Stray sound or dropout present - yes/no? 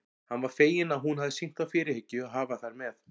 no